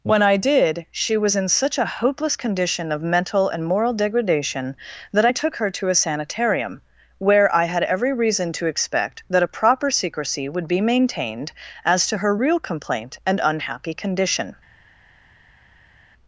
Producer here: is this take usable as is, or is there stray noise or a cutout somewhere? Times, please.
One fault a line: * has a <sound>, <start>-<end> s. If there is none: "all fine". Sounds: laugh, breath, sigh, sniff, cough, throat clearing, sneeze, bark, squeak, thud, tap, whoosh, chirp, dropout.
all fine